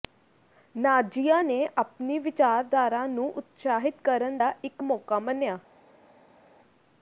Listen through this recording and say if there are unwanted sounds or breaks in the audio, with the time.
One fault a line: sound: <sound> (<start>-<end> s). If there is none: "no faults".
no faults